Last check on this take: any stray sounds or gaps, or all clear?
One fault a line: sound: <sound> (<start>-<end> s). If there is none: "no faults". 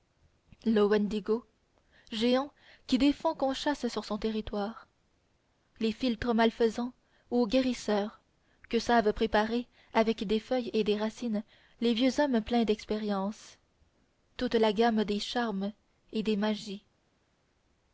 no faults